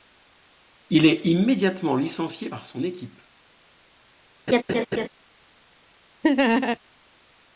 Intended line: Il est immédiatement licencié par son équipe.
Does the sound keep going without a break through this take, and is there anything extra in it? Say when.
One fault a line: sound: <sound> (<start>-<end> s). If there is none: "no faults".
sound: laugh (4.5-5.1 s)
sound: laugh (6.2-6.8 s)